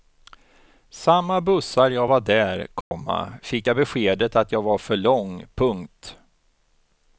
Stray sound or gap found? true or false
true